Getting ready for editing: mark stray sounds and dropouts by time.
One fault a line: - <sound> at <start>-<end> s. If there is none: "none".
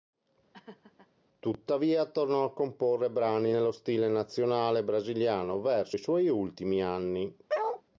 - laugh at 0.5-1.1 s
- bark at 7.5-7.8 s